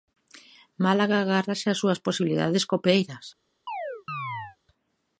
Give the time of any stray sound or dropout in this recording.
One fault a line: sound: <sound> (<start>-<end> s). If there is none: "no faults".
sound: chirp (3.7-4.6 s)